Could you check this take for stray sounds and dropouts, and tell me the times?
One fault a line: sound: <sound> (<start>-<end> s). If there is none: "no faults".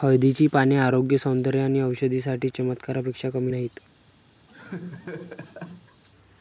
sound: laugh (4.5-6.0 s)